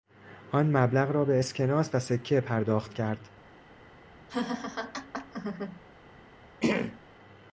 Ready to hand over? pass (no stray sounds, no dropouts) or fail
fail